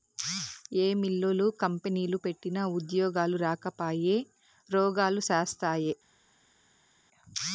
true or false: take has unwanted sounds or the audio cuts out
false